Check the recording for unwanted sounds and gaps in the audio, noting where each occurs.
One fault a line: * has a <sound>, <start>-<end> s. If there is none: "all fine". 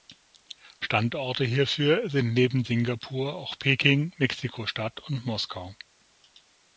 all fine